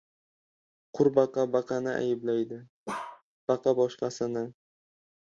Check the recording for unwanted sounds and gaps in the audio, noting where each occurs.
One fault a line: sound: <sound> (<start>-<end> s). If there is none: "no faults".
sound: bark (2.9-3.2 s)